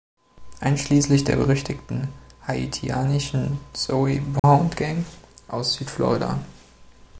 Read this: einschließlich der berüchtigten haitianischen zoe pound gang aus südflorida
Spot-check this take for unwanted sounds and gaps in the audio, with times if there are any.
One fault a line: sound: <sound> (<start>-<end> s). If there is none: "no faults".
sound: dropout (4.4-4.4 s)